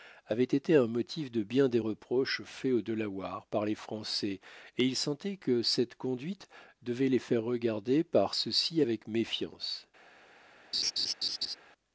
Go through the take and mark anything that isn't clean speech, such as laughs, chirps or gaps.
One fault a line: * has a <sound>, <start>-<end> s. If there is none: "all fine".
* has a laugh, 10.7-11.6 s